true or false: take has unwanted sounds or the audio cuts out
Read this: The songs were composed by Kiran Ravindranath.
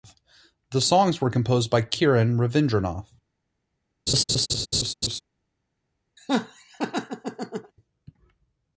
true